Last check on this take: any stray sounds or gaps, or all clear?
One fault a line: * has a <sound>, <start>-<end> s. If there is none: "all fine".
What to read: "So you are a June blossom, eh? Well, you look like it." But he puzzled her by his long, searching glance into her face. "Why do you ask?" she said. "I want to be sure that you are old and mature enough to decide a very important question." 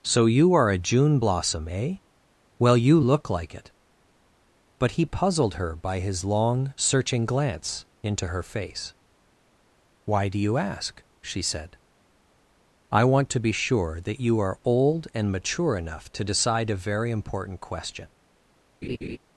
* has a laugh, 18.8-19.2 s